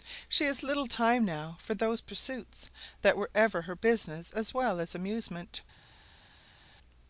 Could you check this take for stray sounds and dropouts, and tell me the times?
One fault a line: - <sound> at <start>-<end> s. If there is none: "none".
none